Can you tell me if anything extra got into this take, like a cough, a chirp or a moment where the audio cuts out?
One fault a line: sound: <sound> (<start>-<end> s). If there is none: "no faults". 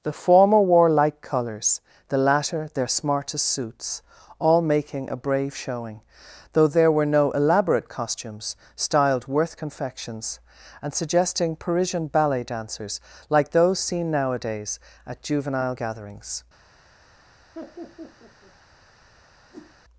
sound: laugh (17.5-18.5 s)
sound: whoosh (19.5-19.8 s)